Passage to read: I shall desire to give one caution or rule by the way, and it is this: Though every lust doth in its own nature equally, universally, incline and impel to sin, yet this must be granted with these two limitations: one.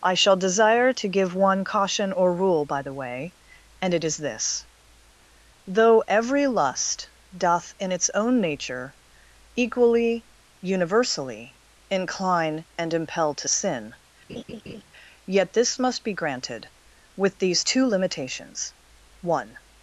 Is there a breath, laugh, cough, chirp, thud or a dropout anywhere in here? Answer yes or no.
yes